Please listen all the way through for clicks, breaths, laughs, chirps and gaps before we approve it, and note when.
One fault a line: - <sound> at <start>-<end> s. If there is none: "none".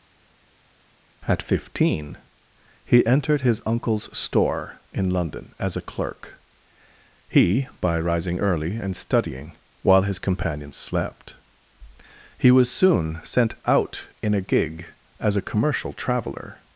none